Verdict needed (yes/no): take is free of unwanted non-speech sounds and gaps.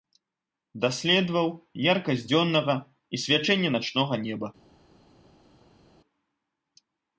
yes